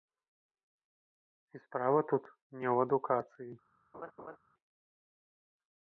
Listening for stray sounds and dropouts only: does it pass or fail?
fail